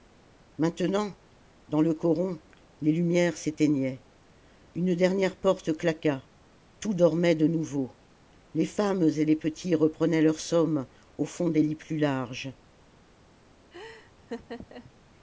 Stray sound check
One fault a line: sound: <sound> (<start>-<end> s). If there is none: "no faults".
sound: laugh (13.7-14.9 s)